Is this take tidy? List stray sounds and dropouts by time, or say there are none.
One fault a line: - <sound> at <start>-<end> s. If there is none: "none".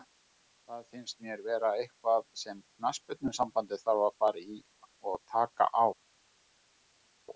none